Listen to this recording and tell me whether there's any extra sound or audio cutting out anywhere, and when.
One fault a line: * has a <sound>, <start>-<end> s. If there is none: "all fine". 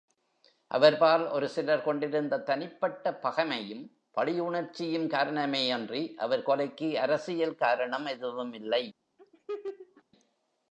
* has a laugh, 9.2-10.0 s